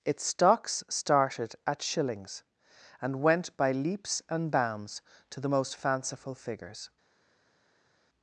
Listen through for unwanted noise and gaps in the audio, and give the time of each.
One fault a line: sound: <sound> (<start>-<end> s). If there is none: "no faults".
no faults